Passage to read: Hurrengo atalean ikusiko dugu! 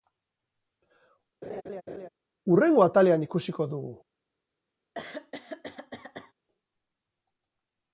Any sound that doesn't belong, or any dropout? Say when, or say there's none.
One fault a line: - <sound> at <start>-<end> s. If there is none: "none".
- laugh at 1.4-2.1 s
- throat clearing at 4.9-6.3 s